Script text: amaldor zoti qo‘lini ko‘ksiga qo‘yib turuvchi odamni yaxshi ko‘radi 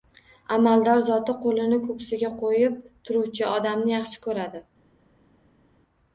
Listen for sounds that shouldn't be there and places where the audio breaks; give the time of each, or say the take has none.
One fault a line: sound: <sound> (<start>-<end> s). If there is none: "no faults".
no faults